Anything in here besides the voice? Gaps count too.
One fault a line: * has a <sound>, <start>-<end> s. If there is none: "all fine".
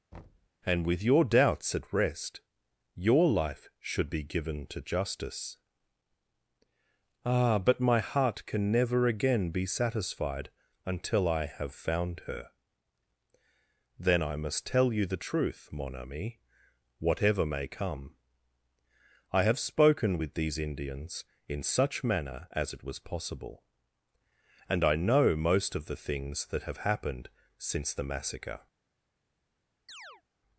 * has a thud, 0.1-0.5 s
* has a chirp, 29.9-30.2 s